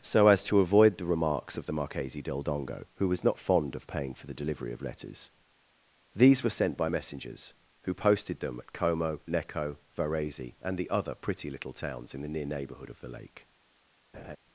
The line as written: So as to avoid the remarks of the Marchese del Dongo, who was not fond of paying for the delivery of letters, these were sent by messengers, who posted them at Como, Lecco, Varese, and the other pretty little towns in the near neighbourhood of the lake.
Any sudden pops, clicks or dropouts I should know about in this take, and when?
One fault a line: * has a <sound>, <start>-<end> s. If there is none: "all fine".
* has a laugh, 14.1-14.4 s